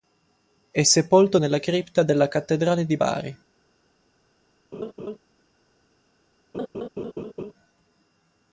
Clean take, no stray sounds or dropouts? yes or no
no